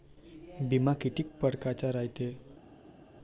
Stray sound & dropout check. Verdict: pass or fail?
pass